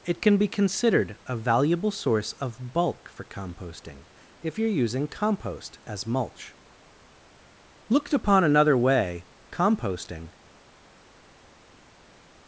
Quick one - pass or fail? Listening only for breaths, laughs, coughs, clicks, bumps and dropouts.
pass